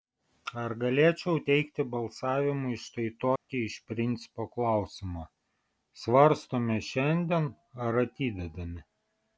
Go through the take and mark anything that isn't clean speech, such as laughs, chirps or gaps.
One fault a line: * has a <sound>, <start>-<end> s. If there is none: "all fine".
* has a dropout, 3.4-3.5 s